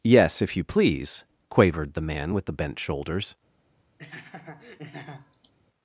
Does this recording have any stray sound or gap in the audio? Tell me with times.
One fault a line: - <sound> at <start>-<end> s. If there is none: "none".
- laugh at 4.0-5.5 s